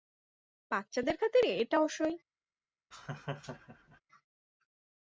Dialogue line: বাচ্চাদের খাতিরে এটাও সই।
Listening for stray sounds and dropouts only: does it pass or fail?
fail